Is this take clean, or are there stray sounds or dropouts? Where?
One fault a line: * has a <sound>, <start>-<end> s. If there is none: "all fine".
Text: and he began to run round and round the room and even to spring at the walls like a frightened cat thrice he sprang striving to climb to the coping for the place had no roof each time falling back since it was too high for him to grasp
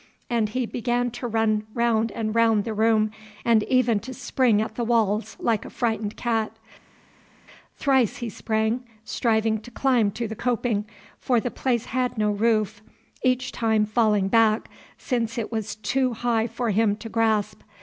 all fine